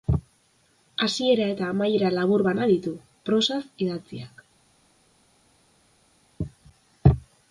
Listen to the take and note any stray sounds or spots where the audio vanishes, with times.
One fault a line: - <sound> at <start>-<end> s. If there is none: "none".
none